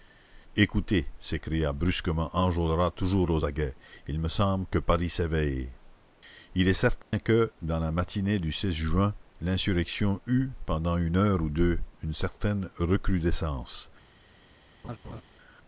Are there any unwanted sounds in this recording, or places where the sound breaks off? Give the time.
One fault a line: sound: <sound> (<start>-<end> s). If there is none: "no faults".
sound: dropout (7.0-7.1 s)
sound: laugh (14.8-15.2 s)